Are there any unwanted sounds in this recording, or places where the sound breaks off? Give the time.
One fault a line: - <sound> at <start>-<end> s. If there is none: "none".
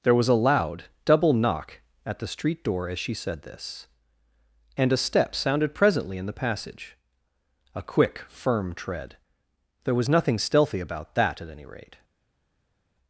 none